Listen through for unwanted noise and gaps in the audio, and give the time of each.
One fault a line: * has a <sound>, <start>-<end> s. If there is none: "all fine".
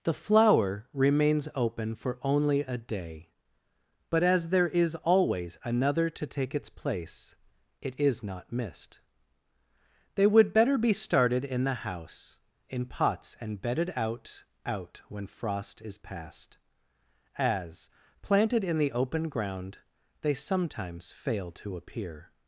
all fine